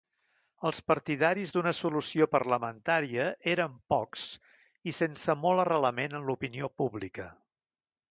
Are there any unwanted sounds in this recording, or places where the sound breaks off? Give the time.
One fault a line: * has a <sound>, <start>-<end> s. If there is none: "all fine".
all fine